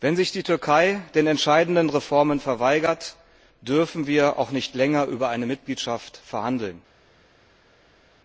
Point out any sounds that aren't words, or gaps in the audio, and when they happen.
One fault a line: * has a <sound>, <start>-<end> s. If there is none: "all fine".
all fine